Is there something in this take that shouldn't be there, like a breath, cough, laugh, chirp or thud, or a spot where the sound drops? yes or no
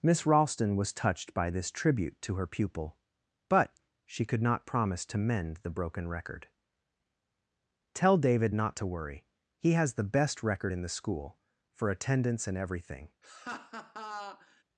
yes